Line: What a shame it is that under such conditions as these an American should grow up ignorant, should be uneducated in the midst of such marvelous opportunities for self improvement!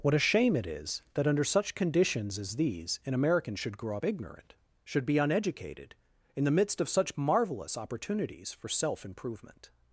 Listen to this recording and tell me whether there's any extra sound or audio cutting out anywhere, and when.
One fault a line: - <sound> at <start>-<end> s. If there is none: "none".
none